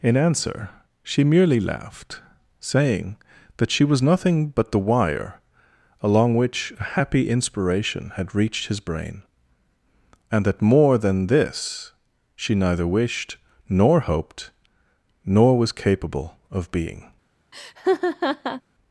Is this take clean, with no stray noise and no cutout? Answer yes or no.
no